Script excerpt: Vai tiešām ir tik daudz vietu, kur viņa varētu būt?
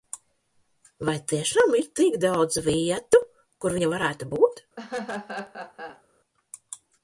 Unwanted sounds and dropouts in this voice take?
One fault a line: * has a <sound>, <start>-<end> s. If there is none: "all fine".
* has a laugh, 4.8-6.0 s